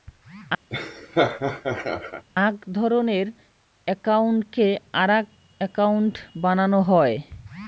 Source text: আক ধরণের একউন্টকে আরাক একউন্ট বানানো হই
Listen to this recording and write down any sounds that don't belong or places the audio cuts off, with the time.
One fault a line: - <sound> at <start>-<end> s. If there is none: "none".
- laugh at 0.7-2.2 s